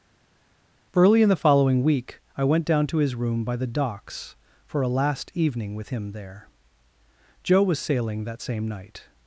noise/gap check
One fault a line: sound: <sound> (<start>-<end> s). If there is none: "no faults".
no faults